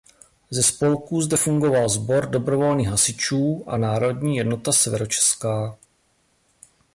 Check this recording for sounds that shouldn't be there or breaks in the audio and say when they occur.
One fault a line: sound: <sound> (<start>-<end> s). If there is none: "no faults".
no faults